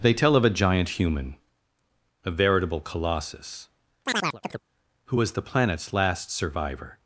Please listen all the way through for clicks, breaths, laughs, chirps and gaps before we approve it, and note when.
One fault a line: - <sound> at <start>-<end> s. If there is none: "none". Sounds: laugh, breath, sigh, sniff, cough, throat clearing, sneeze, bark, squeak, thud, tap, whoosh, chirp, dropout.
- chirp at 4.1-4.6 s